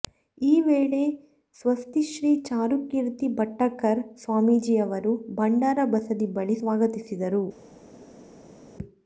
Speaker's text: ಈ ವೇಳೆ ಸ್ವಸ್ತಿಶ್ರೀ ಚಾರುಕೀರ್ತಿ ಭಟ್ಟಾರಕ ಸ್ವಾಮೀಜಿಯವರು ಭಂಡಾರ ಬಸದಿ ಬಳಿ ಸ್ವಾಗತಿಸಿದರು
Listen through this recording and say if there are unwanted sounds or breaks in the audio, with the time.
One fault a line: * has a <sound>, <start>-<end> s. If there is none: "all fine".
all fine